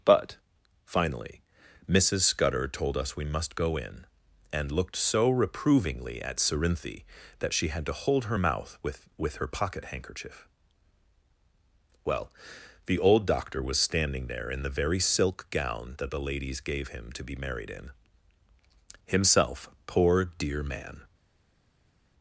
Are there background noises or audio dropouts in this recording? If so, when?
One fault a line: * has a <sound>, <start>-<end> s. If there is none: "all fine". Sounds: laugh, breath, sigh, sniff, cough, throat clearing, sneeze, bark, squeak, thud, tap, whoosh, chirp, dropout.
all fine